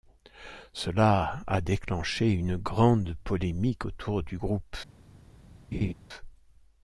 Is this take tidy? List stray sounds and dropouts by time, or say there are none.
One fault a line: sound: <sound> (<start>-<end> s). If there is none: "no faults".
sound: laugh (5.7-5.9 s)